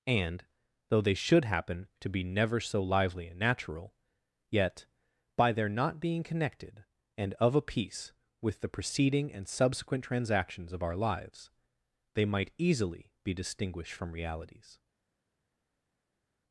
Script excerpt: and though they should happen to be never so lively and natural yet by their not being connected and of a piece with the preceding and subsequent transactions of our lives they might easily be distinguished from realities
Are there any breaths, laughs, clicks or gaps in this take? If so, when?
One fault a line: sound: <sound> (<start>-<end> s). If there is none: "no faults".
no faults